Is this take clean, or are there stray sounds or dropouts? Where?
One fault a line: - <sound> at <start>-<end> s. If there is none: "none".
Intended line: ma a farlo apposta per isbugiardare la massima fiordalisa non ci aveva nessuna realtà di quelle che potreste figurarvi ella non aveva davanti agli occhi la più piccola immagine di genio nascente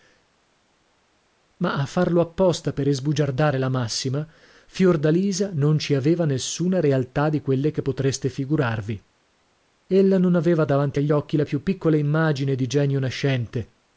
none